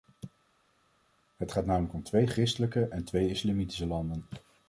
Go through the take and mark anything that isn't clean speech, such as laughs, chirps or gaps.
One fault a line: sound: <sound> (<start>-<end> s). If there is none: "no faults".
no faults